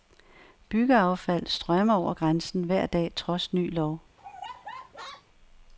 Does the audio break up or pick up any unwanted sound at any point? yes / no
yes